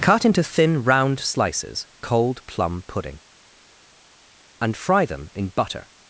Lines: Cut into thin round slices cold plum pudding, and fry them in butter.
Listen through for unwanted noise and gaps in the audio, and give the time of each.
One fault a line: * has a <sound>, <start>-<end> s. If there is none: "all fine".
all fine